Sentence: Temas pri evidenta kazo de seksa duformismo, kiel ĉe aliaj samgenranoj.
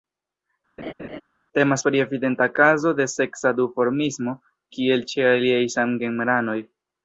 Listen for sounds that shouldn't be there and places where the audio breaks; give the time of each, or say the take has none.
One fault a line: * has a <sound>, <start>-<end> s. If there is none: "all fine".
* has a laugh, 0.8-1.2 s